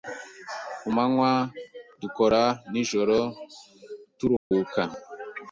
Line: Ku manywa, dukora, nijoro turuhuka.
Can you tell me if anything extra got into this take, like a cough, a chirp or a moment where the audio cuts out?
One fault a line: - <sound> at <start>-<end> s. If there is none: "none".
- dropout at 4.4-4.5 s